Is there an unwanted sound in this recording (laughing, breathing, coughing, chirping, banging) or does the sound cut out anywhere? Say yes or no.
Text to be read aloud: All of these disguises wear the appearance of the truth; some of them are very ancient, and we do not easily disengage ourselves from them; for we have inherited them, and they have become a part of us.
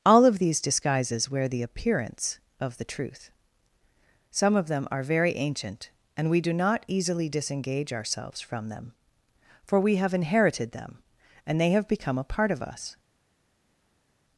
no